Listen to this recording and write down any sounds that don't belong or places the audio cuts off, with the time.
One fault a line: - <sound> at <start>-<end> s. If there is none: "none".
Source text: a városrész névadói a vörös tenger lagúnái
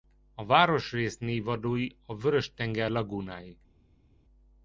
none